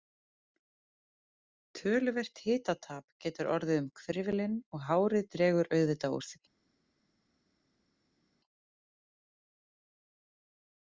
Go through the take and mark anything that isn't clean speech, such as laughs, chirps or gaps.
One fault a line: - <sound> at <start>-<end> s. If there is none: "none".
none